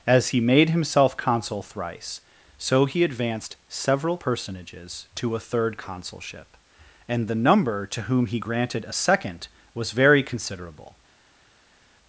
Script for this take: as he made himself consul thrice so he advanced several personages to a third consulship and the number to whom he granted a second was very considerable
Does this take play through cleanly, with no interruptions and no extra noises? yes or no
yes